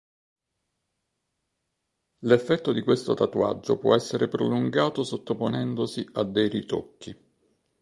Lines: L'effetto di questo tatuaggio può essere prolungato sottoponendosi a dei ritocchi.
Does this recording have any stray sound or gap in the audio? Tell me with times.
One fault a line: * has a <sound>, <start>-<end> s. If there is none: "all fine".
all fine